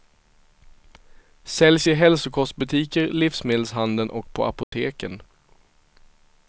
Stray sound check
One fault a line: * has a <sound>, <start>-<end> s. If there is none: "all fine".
* has a dropout, 4.6-4.7 s